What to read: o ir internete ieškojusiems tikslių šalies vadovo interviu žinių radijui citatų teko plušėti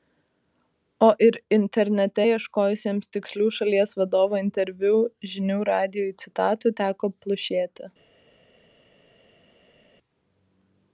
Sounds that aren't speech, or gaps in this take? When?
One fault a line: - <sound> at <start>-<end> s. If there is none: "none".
none